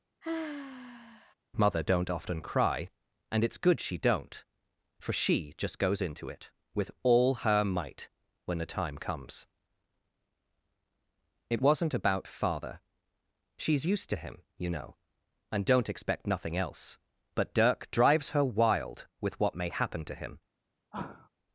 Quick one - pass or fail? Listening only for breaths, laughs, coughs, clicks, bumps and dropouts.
fail